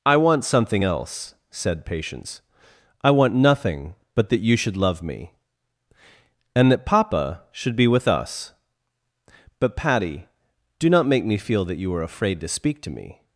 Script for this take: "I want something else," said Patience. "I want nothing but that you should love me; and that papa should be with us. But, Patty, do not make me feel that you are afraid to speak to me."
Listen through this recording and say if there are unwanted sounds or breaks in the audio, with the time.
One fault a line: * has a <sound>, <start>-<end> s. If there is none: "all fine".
all fine